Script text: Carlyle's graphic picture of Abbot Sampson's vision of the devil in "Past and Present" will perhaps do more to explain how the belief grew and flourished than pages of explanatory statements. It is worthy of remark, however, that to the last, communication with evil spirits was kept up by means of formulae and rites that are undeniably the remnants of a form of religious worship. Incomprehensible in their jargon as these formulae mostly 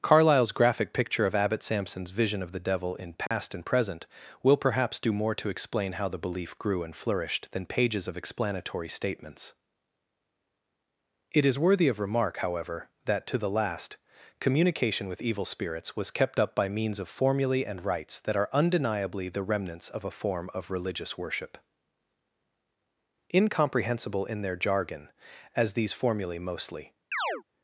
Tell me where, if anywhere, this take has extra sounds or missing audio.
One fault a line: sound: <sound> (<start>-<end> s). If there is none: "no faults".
sound: dropout (3.3-3.3 s)
sound: chirp (27.1-27.4 s)